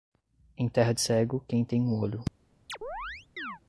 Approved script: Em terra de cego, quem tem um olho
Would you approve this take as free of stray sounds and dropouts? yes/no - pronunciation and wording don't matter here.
no